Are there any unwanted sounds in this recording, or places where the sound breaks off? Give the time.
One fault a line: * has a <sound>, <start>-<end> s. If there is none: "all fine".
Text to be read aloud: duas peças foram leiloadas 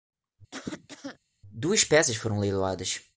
* has a cough, 0.5-1.2 s